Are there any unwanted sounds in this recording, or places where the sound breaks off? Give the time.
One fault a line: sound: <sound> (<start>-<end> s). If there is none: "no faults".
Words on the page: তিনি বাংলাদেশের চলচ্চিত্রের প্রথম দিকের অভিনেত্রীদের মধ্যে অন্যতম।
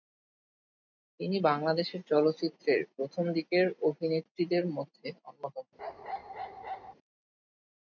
sound: bark (5.8-6.9 s)